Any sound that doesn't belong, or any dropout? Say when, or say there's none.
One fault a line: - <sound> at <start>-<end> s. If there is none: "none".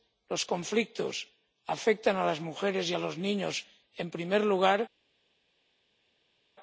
none